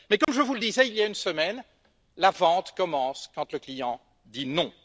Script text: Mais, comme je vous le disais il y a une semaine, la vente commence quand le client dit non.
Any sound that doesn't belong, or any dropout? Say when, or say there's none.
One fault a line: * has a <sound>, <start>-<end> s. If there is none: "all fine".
* has a dropout, 0.2-0.3 s